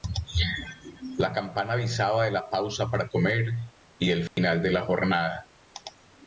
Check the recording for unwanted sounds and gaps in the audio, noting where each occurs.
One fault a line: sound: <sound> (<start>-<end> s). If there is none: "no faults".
sound: dropout (4.3-4.4 s)